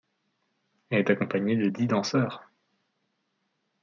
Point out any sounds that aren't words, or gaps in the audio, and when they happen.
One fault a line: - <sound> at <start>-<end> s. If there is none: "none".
none